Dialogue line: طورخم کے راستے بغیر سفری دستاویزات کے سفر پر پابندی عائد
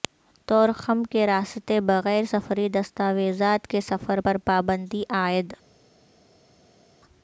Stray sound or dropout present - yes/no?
no